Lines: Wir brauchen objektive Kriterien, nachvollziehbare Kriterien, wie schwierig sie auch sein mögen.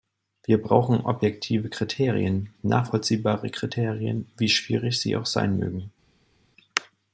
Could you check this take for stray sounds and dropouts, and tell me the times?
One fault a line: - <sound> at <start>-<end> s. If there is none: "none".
none